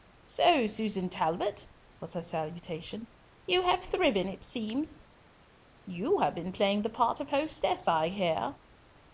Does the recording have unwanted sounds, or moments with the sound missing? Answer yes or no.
no